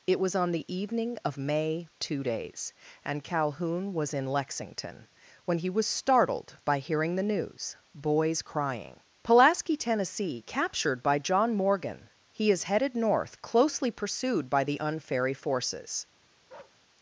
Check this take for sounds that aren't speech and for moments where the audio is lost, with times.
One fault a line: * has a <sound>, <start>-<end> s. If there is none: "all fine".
* has a bark, 16.5-16.8 s